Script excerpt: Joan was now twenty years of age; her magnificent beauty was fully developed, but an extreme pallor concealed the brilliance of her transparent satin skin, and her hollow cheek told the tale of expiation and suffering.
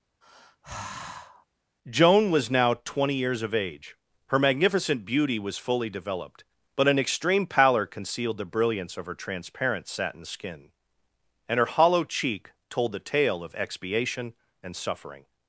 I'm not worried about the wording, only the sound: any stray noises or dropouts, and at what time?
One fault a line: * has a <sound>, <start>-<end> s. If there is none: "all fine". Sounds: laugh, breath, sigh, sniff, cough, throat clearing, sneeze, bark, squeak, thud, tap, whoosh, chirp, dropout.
* has a sigh, 0.2-1.5 s